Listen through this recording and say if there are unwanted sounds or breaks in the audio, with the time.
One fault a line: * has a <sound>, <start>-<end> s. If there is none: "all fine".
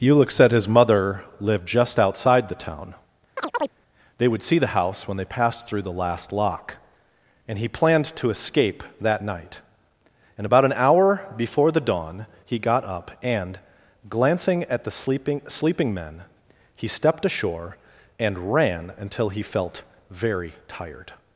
* has a chirp, 3.4-3.7 s